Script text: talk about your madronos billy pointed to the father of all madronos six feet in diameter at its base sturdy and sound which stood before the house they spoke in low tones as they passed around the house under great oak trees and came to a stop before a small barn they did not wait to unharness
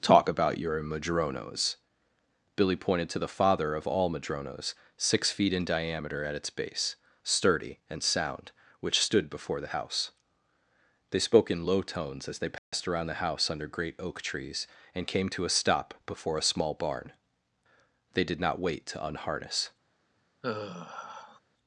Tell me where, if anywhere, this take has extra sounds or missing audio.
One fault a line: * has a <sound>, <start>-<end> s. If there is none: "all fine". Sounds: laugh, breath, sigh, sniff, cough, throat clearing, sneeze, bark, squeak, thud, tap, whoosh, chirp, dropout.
* has a dropout, 12.6-12.7 s
* has a sigh, 20.4-21.4 s